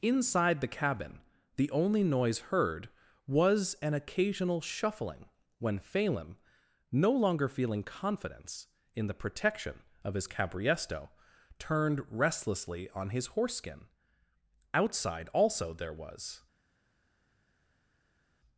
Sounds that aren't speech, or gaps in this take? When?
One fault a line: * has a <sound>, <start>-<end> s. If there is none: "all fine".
all fine